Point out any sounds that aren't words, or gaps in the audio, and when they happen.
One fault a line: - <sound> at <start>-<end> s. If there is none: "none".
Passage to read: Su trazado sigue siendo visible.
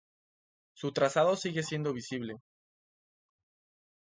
none